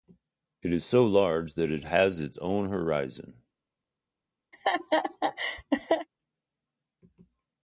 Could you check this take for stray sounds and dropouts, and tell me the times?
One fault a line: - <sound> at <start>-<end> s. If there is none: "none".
- laugh at 4.5-6.1 s